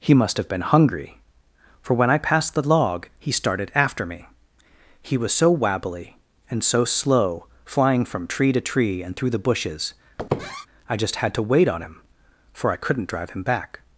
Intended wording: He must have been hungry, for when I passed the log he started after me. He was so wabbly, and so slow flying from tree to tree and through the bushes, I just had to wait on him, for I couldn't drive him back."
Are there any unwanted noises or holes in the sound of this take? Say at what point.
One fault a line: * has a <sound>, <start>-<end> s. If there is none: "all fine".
* has a squeak, 10.2-10.7 s